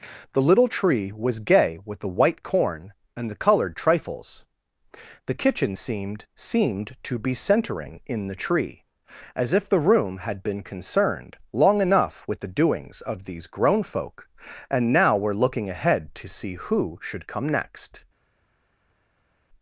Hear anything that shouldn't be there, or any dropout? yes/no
no